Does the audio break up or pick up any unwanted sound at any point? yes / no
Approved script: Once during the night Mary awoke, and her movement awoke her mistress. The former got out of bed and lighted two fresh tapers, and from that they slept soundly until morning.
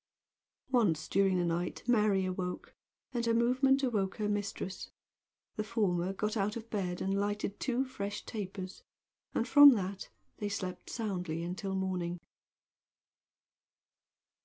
no